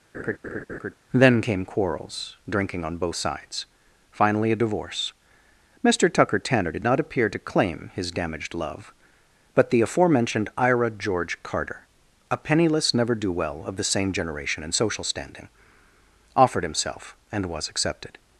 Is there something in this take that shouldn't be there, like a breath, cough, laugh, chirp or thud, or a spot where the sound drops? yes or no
yes